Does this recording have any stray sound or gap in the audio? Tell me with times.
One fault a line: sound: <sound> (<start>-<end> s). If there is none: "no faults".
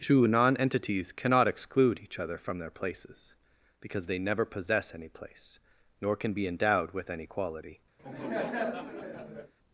sound: laugh (8.0-9.5 s)